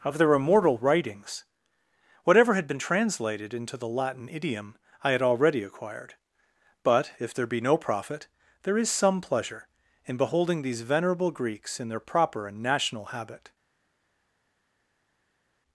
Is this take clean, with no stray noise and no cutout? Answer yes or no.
yes